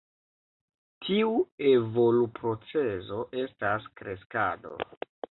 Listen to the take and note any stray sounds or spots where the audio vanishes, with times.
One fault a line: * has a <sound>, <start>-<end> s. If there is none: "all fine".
all fine